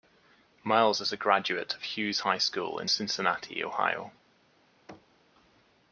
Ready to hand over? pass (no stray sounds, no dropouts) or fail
fail